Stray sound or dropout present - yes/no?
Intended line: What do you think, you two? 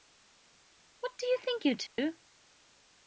yes